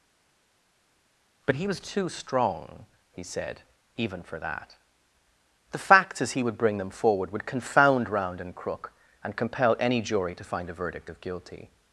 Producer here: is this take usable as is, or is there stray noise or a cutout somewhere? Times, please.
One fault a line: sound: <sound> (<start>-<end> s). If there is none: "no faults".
no faults